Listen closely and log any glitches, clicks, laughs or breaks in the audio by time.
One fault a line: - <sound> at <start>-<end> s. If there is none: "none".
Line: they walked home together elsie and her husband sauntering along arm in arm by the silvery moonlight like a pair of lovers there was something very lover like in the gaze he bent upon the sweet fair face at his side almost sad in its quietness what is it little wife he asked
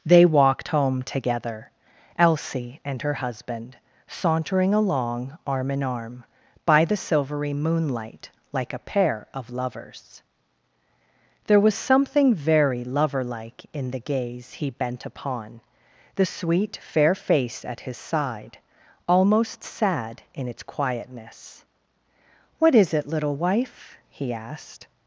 none